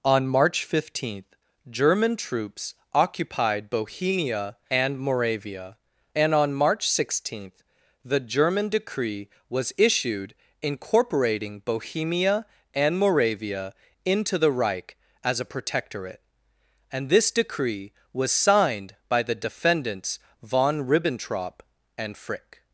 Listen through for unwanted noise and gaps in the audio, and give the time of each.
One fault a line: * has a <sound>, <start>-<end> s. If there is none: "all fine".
all fine